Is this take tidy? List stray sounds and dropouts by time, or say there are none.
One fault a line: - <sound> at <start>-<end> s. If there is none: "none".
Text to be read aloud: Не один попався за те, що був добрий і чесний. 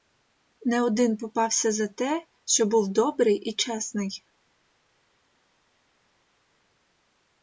none